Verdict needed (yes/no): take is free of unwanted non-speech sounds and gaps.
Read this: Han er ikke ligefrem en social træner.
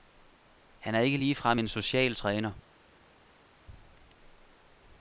yes